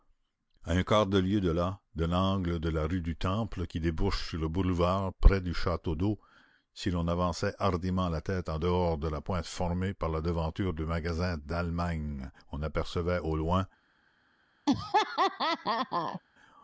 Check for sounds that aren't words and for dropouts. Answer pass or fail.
fail